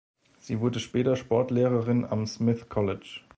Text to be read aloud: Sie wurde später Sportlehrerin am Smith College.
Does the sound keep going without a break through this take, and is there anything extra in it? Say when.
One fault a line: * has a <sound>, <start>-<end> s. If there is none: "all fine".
all fine